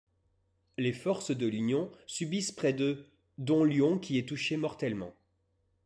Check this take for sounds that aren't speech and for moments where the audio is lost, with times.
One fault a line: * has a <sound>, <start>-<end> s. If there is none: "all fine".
all fine